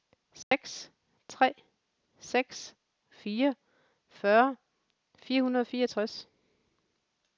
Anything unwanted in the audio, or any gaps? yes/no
yes